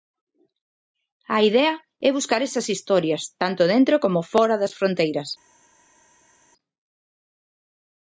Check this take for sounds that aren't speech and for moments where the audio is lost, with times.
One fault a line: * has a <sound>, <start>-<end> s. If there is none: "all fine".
all fine